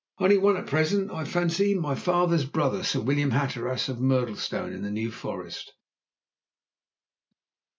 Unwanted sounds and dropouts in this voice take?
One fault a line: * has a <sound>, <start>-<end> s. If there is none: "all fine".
all fine